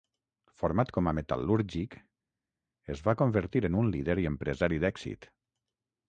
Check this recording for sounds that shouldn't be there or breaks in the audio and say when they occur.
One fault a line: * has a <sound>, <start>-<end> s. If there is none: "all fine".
all fine